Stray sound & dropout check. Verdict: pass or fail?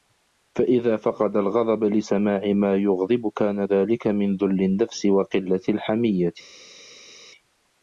pass